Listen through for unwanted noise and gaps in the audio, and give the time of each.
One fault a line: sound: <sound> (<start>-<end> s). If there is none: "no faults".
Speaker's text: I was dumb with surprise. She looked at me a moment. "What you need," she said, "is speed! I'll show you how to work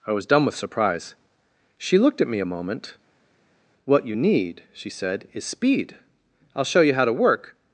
no faults